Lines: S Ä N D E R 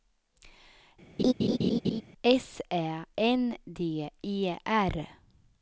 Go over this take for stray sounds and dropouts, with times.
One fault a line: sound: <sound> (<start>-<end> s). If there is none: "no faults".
sound: laugh (1.2-2.0 s)